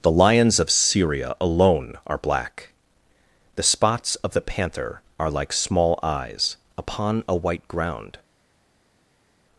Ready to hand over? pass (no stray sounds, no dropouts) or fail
pass